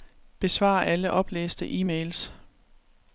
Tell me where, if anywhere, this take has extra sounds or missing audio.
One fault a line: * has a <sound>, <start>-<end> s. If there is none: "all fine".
all fine